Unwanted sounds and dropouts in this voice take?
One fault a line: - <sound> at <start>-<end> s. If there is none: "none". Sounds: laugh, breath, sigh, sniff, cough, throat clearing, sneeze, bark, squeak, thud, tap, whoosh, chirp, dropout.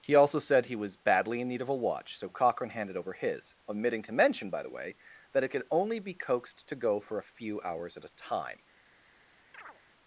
- chirp at 9.5-9.8 s